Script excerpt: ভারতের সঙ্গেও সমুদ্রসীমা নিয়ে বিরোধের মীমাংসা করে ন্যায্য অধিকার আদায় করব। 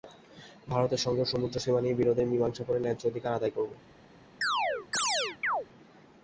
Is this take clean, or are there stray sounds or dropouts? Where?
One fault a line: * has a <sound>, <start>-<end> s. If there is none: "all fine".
* has a chirp, 4.4-5.7 s